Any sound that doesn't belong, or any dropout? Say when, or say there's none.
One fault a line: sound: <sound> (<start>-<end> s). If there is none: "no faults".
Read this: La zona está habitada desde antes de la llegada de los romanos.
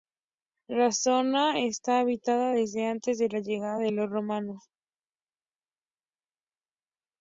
no faults